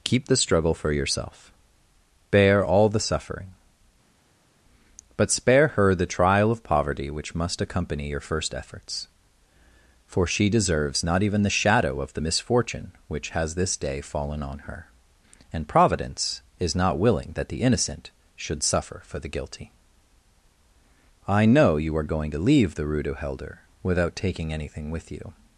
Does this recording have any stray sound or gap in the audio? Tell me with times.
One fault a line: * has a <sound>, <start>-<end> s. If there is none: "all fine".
all fine